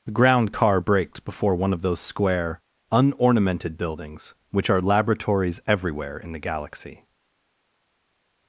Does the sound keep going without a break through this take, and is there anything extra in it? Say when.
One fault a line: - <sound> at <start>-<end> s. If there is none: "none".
none